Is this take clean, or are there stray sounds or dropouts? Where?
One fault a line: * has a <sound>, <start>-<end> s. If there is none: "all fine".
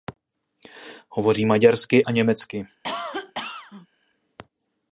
* has a cough, 2.8-3.9 s